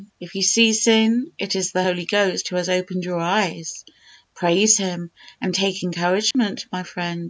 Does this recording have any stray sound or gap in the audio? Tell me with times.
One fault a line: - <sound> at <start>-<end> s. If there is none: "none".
- dropout at 6.3-6.3 s